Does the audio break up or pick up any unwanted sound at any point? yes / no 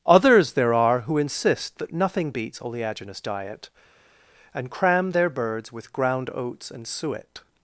no